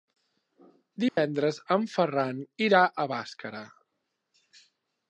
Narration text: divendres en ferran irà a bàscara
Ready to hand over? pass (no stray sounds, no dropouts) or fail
fail